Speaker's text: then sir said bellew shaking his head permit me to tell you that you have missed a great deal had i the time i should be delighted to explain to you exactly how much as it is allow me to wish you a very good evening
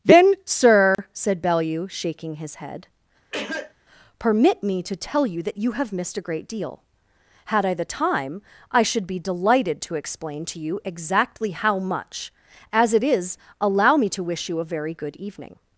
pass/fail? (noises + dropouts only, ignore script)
fail